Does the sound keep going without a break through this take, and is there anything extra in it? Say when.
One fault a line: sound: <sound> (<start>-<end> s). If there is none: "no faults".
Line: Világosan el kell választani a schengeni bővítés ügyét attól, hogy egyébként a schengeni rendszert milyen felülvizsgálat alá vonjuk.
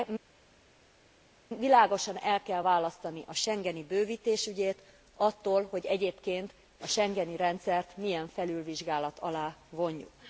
no faults